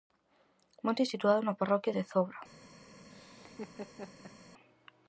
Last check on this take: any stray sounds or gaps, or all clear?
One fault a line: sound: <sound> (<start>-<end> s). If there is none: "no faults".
sound: laugh (3.1-4.4 s)